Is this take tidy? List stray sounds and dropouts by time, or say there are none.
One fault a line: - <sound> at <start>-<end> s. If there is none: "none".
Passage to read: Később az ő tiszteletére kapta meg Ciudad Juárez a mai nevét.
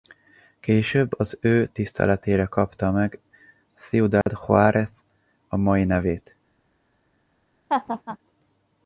- dropout at 4.2-4.3 s
- laugh at 7.7-8.2 s